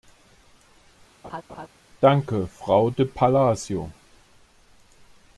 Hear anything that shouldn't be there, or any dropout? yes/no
yes